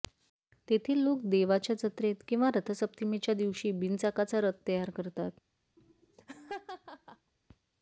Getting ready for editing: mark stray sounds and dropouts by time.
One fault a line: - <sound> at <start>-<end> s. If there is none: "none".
- laugh at 5.8-7.3 s